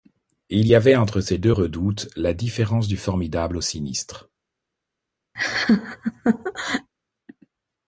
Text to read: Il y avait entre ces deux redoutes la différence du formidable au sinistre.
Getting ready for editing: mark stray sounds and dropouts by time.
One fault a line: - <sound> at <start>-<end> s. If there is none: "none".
- laugh at 5.3-6.9 s